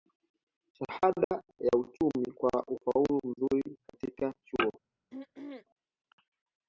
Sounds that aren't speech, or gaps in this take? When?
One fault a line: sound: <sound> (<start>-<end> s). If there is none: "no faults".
sound: dropout (1.2-1.3 s)
sound: throat clearing (5.1-5.7 s)